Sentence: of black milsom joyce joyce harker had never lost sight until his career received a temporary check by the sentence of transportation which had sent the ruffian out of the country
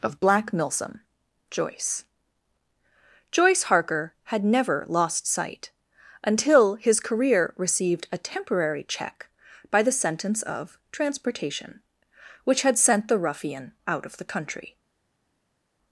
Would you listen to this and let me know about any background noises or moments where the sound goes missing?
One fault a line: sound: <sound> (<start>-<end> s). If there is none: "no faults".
no faults